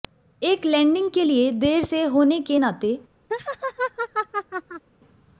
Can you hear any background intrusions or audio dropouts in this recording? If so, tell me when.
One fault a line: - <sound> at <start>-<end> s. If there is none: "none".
- laugh at 3.3-4.8 s